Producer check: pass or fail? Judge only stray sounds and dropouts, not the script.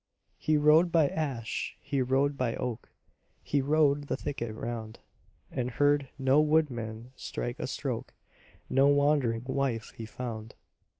pass